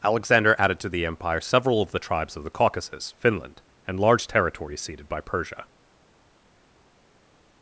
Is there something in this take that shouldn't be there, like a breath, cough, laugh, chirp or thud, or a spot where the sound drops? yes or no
no